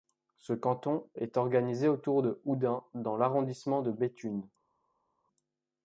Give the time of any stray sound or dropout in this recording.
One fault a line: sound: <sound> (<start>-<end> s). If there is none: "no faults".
no faults